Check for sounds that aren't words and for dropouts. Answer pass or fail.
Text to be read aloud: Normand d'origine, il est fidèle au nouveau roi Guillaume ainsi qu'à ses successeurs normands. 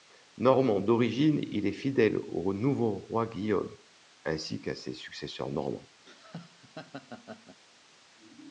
fail